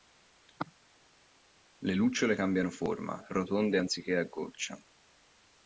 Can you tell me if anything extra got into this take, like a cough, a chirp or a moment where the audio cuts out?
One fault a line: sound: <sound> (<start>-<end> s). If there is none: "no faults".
no faults